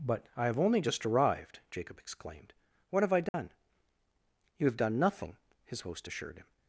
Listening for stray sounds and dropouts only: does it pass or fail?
fail